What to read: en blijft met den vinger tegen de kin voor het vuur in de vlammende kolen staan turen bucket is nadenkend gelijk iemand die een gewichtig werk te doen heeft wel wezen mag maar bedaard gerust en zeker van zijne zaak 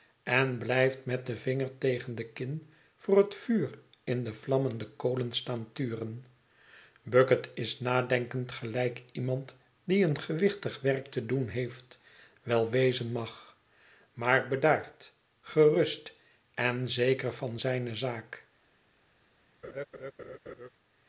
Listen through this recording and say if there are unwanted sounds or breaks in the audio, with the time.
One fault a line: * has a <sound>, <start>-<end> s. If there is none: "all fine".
* has a laugh, 19.6-20.7 s